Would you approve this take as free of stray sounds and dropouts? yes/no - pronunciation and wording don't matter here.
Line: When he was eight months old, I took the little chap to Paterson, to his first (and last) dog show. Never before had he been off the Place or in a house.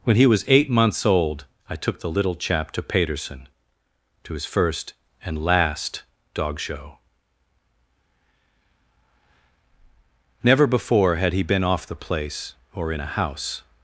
yes